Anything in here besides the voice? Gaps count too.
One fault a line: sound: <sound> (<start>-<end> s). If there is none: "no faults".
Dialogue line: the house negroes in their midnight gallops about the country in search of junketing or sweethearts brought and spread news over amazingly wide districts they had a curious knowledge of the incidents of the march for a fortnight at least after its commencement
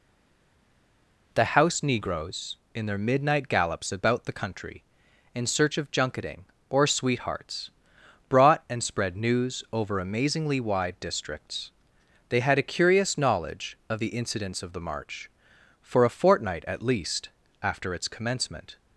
no faults